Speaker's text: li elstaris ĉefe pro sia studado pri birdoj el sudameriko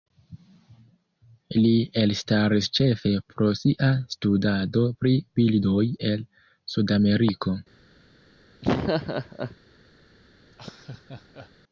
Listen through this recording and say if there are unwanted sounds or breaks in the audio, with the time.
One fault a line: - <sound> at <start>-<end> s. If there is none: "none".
- laugh at 8.6-9.6 s
- laugh at 10.5-11.5 s